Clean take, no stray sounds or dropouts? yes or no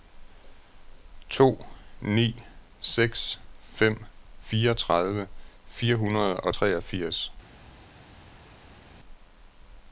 yes